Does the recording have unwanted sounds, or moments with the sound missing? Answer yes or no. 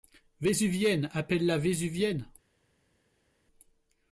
no